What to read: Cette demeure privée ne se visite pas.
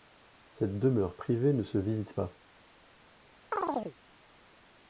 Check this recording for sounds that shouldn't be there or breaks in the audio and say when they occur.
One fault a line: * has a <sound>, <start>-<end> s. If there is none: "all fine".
* has a chirp, 3.5-4.0 s